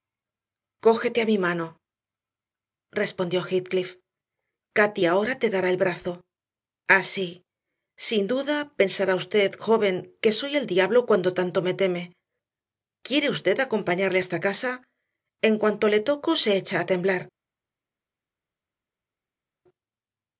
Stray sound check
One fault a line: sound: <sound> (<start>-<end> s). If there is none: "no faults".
no faults